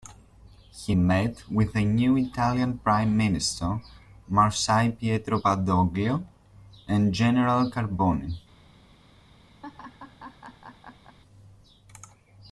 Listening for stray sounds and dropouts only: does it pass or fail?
fail